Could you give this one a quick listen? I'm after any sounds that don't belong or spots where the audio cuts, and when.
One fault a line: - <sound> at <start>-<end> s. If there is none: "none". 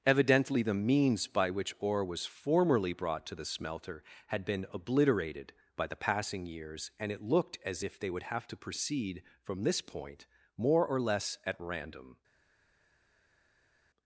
none